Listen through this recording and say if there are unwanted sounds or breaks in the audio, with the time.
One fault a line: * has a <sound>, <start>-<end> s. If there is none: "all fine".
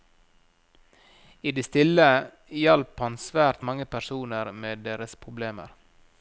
all fine